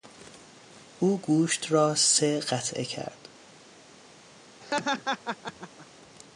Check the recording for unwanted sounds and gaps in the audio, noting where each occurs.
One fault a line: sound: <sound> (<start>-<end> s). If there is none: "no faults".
sound: laugh (4.6-5.9 s)